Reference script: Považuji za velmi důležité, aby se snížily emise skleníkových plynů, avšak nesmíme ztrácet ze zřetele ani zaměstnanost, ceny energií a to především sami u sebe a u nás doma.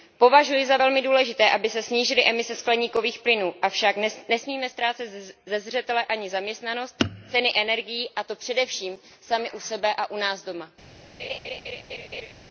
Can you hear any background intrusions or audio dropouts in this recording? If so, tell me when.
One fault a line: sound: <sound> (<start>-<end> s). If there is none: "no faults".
sound: laugh (11.2-12.3 s)